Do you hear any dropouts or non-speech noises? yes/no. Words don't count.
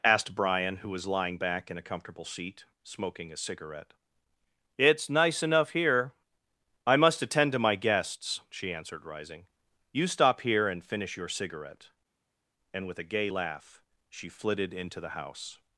no